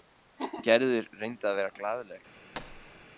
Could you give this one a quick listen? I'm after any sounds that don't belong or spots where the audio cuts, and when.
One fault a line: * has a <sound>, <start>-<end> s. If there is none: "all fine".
* has a thud, 2.5-3.0 s